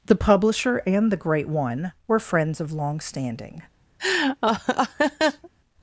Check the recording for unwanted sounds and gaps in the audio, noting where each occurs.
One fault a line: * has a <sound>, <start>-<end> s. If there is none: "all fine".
* has a laugh, 4.0-5.5 s